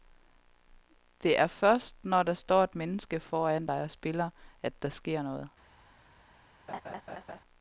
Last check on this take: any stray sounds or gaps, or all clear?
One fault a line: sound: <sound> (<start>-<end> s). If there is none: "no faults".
sound: laugh (6.7-7.4 s)